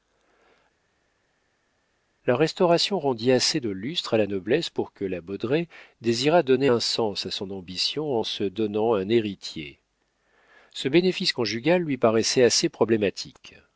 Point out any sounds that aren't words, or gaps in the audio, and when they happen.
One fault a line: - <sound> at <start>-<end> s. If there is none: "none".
none